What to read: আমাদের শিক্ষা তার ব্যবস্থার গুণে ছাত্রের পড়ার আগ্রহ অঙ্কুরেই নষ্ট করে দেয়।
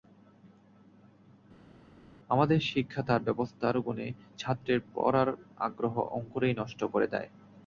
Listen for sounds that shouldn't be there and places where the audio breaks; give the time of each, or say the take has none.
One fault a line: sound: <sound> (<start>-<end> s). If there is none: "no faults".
no faults